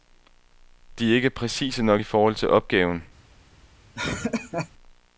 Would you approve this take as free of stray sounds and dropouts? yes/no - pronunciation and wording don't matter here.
no